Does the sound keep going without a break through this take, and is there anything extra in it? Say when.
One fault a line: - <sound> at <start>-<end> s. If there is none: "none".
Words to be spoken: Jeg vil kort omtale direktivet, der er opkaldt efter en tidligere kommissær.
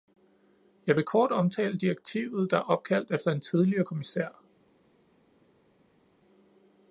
none